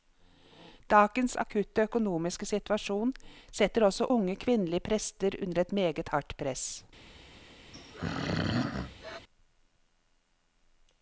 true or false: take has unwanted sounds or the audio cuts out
true